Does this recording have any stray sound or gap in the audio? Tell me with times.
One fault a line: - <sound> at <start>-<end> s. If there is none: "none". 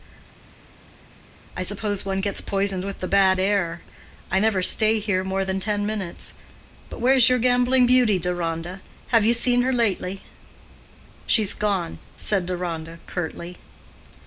none